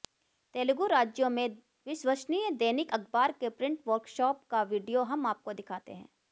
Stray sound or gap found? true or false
false